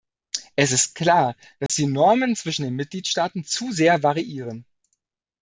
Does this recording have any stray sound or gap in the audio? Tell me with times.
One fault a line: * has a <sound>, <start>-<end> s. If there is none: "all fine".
* has a dropout, 1.7-1.7 s